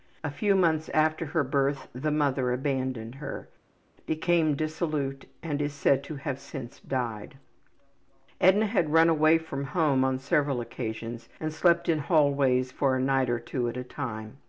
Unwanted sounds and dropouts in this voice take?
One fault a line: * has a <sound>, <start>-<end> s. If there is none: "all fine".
all fine